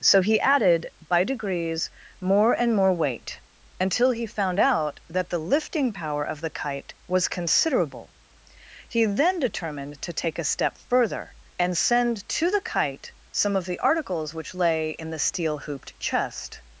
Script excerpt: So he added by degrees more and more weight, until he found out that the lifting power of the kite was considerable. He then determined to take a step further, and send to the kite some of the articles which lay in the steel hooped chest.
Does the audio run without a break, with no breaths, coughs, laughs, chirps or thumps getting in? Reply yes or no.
yes